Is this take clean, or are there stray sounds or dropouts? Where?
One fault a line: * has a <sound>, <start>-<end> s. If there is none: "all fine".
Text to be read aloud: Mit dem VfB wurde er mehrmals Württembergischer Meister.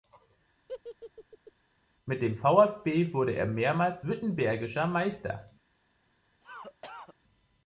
* has a laugh, 0.7-1.5 s
* has a cough, 6.4-7.1 s